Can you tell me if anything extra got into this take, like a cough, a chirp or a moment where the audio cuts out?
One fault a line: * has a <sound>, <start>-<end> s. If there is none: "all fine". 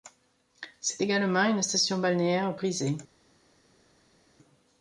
all fine